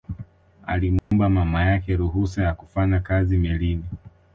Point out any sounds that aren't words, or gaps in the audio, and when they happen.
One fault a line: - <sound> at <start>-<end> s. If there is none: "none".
- dropout at 1.0-1.1 s